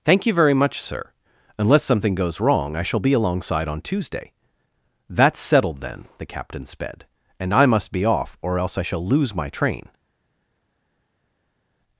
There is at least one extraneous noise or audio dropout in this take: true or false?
false